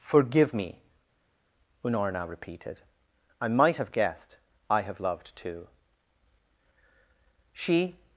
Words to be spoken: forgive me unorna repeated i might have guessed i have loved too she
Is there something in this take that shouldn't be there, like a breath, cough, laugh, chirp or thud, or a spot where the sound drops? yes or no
no